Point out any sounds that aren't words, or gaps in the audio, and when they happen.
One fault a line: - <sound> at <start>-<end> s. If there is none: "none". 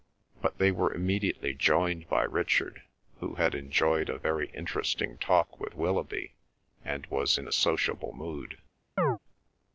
- chirp at 9.0-9.2 s